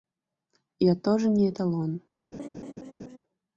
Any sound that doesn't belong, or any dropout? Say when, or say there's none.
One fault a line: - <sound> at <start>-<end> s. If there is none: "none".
- laugh at 2.3-3.2 s